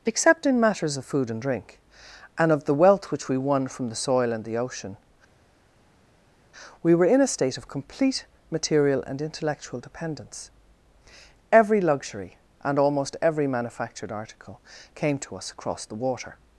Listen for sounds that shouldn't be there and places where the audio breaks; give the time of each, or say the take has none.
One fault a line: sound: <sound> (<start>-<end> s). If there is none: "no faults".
no faults